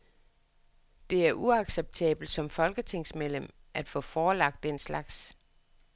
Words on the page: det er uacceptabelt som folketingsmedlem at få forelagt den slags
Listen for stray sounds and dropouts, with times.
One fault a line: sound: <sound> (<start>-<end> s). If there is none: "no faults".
no faults